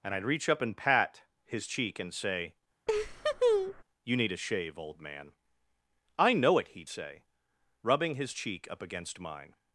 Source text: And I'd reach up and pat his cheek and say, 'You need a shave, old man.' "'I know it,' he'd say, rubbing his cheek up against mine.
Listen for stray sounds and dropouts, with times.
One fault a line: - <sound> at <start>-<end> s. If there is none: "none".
- laugh at 2.9-3.8 s